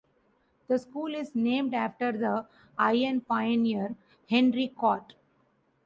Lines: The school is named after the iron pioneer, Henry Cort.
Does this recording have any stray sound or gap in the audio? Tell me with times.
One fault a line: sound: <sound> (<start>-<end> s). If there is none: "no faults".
no faults